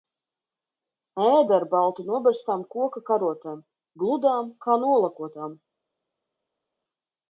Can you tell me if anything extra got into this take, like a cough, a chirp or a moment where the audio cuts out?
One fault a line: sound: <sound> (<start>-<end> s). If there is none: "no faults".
no faults